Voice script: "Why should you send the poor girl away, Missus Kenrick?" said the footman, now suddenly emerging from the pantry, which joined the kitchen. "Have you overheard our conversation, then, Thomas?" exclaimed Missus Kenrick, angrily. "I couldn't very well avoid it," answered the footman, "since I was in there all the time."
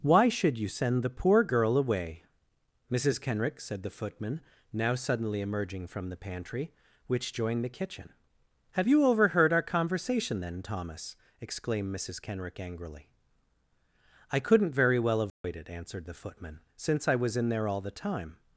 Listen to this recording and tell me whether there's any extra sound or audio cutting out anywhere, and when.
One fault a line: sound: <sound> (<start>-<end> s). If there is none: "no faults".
sound: dropout (15.3-15.4 s)